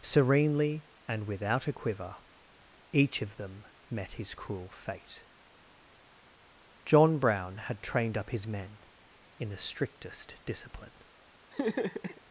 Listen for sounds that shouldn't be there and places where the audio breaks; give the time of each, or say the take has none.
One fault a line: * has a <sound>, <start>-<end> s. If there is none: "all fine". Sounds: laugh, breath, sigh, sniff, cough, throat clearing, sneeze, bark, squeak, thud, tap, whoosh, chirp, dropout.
* has a laugh, 11.5-12.2 s